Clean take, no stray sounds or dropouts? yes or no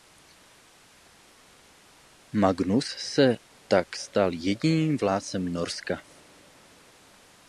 yes